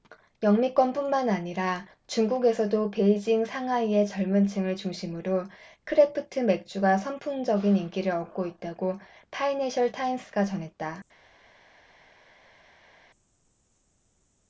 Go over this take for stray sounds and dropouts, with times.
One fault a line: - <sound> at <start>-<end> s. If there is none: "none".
none